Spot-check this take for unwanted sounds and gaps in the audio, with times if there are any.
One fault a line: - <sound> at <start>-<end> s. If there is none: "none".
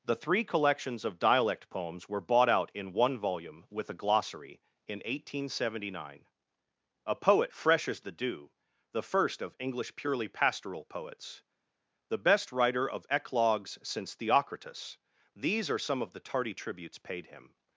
none